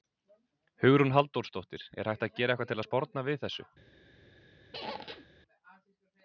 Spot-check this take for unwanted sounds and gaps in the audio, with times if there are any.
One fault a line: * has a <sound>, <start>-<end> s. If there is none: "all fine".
* has a squeak, 4.7-5.3 s